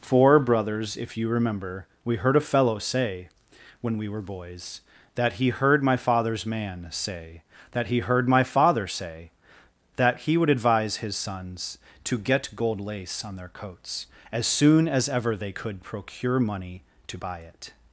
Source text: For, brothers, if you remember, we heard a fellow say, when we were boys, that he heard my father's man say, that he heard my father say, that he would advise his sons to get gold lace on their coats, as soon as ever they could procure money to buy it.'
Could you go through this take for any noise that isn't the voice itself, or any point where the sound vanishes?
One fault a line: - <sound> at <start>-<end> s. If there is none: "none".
none